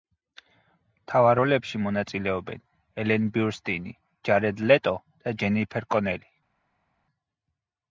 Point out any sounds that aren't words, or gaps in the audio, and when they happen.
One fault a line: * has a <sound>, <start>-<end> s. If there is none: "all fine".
all fine